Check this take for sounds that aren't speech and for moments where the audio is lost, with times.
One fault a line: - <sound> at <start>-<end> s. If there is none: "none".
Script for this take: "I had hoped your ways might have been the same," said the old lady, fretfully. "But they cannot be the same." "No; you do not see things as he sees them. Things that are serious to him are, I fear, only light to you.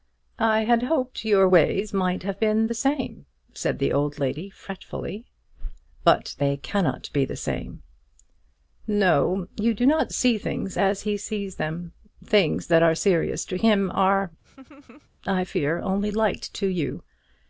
- laugh at 14.4-15.1 s